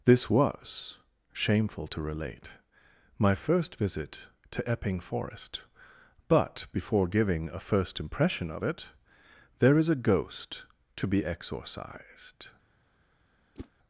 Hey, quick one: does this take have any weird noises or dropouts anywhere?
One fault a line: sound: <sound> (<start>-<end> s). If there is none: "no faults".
sound: whoosh (13.5-13.7 s)